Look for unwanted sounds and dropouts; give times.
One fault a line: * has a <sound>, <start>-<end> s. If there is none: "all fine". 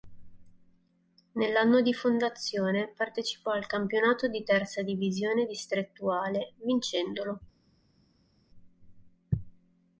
all fine